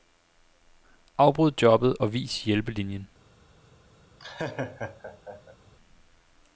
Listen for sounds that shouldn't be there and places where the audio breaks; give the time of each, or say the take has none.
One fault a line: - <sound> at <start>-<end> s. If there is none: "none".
- laugh at 4.2-5.6 s